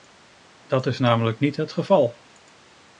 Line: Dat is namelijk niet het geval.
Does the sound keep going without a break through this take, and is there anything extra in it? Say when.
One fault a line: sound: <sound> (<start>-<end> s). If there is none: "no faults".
no faults